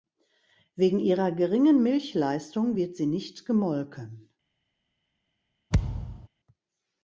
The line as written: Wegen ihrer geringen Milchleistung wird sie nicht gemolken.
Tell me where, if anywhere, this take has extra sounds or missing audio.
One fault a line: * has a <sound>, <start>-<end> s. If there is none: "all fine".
* has a thud, 5.7-6.3 s